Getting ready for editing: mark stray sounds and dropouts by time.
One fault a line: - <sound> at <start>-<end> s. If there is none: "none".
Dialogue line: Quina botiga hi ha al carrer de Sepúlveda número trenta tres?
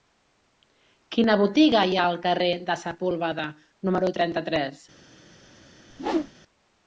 - whoosh at 5.9-6.3 s